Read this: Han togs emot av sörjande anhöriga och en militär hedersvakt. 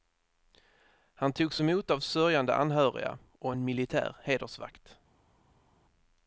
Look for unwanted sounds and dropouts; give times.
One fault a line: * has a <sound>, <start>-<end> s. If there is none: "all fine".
all fine